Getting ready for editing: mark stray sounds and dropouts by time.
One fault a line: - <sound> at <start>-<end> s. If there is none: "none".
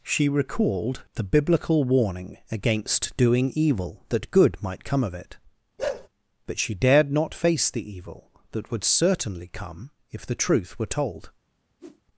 - bark at 5.8-6.1 s
- whoosh at 11.8-12.0 s